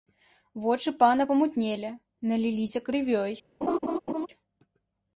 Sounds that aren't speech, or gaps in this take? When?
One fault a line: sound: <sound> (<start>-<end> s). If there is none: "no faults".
sound: laugh (3.6-4.3 s)